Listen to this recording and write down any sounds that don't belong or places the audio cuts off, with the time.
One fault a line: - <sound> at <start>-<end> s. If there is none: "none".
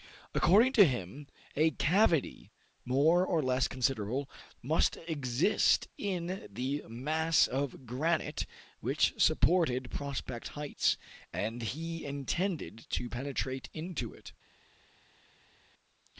none